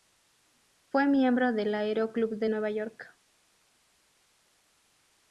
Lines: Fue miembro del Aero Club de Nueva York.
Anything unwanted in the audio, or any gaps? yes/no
no